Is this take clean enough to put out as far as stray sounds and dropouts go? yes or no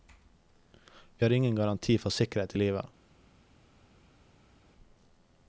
yes